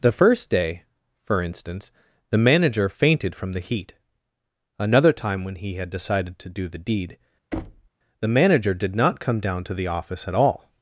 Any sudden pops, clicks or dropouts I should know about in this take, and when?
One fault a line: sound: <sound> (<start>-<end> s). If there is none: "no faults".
sound: thud (7.5-7.9 s)